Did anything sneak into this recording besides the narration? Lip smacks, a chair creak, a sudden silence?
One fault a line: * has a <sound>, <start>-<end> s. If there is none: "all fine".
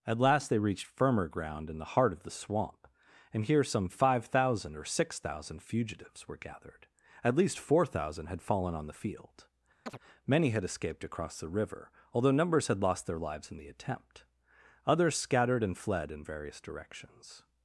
* has a chirp, 9.9-10.0 s